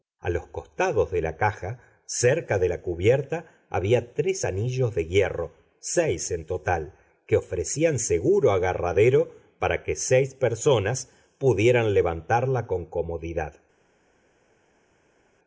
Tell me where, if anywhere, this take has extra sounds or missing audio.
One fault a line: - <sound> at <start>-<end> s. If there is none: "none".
none